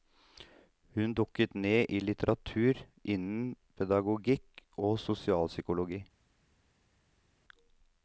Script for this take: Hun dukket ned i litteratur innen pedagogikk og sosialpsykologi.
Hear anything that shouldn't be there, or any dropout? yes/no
no